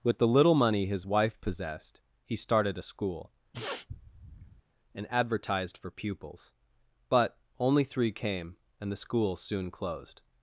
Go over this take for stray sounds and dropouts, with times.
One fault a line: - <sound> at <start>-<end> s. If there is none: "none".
- sniff at 3.5-4.6 s